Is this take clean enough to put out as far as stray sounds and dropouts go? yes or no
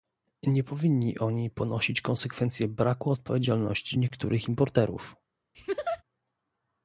no